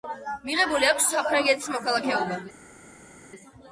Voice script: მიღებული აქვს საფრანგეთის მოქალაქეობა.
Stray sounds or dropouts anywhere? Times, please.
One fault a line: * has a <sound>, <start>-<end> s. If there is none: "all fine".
all fine